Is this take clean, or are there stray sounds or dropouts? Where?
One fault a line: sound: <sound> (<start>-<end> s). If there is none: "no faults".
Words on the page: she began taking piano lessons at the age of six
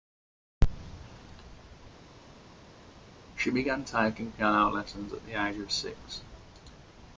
no faults